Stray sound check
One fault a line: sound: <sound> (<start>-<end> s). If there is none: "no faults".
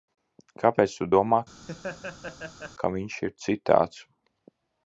sound: laugh (1.6-2.7 s)